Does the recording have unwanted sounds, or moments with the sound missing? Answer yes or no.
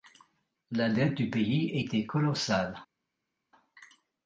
no